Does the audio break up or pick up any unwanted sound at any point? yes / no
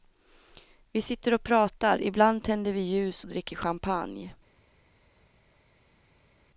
no